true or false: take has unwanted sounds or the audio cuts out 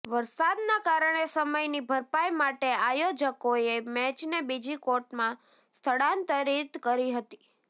false